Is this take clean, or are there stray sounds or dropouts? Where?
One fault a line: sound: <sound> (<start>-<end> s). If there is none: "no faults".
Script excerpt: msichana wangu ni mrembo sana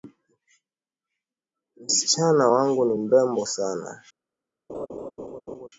sound: laugh (4.7-5.7 s)